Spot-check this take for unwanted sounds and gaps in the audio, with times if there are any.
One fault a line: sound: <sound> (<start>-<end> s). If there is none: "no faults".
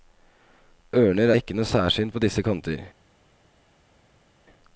no faults